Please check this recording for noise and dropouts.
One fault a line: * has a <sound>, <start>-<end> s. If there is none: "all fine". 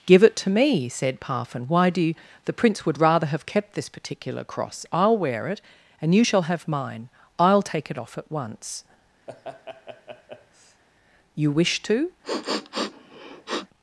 * has a laugh, 9.3-10.8 s
* has a sniff, 12.2-13.7 s